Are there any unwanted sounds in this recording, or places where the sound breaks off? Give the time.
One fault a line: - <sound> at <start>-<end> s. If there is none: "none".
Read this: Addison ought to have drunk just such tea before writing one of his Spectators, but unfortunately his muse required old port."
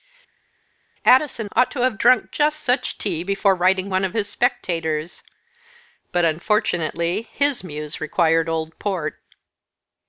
none